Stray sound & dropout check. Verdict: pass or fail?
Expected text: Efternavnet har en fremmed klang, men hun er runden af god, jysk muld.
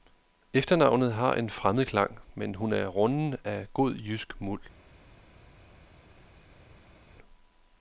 pass